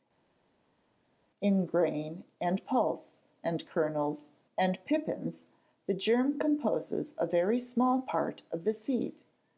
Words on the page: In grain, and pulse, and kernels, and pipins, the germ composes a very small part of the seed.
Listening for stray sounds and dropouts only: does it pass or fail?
pass